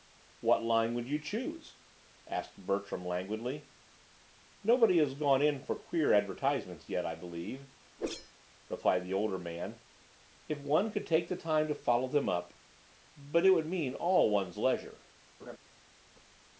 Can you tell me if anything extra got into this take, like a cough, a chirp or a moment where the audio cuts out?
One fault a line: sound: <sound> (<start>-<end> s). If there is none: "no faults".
sound: whoosh (8.0-8.3 s)
sound: laugh (15.4-15.6 s)